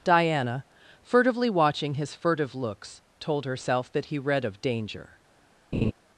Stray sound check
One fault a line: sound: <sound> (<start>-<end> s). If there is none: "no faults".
sound: laugh (5.7-5.9 s)